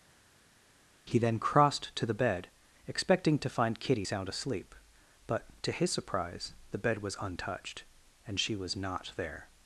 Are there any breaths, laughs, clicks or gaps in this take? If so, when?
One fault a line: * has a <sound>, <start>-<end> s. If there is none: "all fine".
all fine